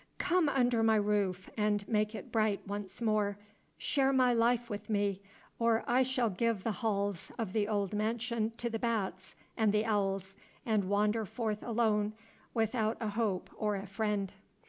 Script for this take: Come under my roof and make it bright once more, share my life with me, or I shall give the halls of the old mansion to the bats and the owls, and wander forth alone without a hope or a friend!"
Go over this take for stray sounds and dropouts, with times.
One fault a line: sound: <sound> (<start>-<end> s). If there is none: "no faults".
no faults